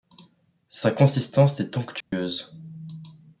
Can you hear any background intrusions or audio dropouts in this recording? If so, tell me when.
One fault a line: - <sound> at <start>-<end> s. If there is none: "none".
- dropout at 2.0-2.1 s